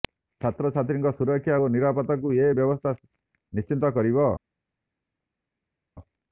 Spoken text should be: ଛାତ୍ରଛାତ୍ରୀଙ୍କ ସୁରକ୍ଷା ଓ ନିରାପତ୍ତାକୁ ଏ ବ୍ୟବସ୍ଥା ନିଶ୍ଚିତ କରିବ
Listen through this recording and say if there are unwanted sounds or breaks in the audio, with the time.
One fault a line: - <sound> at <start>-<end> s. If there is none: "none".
none